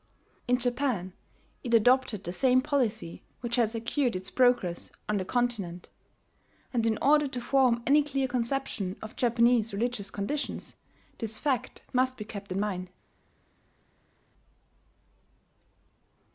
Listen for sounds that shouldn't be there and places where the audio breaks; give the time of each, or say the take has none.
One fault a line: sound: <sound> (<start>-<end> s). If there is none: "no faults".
no faults